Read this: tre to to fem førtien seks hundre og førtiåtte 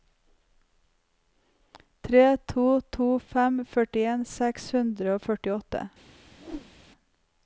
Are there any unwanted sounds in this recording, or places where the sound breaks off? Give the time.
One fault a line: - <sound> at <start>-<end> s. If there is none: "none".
- whoosh at 6.4-6.7 s